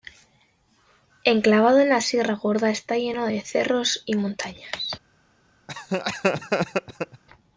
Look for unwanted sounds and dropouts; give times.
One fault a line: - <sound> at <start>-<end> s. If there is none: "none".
- laugh at 5.7-7.2 s